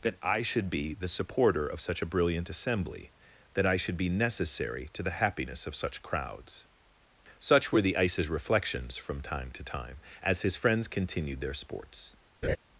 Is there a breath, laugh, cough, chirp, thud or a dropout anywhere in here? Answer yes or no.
yes